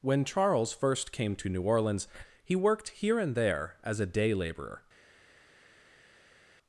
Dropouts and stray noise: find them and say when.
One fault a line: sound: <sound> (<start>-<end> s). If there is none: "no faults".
no faults